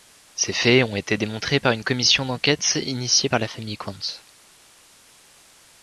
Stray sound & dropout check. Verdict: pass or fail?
pass